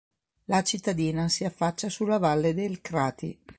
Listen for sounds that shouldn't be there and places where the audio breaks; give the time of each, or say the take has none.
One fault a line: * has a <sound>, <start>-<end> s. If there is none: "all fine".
all fine